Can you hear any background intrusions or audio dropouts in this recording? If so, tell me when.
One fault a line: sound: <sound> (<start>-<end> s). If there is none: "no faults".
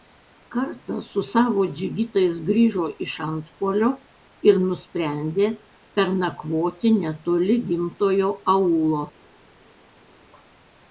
no faults